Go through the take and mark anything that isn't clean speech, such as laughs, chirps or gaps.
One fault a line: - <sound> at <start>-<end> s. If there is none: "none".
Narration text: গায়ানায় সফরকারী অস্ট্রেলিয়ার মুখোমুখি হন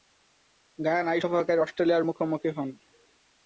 none